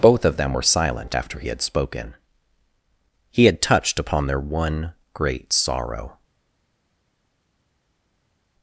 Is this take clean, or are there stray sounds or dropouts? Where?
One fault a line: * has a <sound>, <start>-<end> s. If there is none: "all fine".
all fine